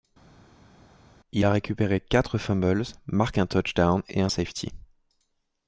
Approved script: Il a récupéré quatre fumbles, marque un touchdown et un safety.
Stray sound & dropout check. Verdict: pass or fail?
pass